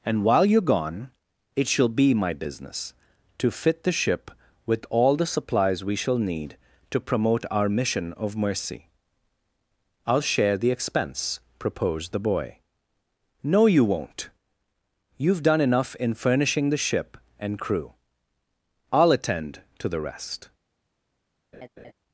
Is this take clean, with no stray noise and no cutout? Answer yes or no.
no